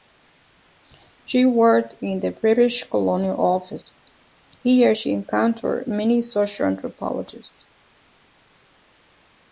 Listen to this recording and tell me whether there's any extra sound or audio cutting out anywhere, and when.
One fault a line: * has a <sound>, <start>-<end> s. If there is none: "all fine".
all fine